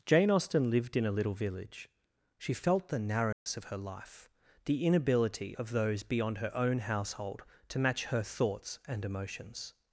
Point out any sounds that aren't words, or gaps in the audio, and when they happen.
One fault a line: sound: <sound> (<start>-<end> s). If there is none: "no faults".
sound: dropout (3.3-3.5 s)